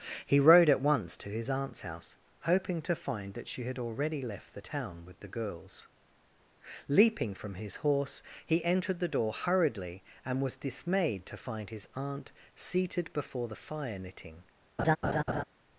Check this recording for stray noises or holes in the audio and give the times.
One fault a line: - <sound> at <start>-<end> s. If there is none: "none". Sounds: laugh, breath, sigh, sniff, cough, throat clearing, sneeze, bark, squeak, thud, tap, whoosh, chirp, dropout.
- laugh at 14.8-15.4 s